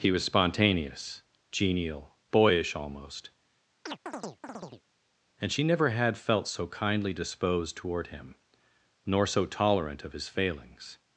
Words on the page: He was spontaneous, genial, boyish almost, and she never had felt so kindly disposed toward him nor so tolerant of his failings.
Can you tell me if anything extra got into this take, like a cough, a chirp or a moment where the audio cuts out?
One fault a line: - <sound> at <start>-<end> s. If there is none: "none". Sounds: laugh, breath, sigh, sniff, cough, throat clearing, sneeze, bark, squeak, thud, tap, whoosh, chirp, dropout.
- chirp at 3.9-4.8 s